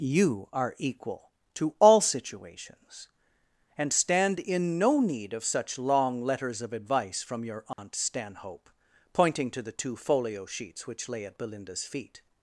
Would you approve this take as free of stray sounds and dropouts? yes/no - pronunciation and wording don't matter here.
no